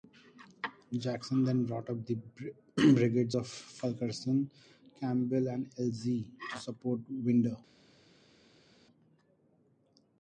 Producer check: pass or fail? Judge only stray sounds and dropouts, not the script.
pass